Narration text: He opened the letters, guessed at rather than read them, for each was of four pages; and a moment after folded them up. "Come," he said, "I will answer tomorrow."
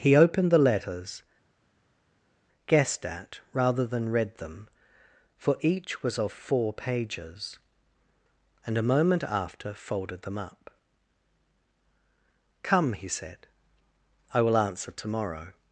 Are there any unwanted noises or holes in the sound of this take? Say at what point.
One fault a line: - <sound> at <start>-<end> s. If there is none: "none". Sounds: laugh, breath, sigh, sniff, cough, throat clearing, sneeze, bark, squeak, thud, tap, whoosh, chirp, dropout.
none